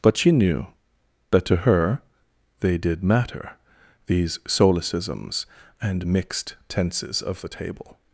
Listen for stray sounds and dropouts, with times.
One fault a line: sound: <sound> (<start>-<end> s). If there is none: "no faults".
no faults